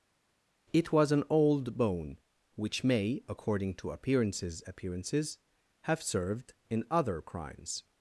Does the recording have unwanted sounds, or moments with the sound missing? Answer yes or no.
no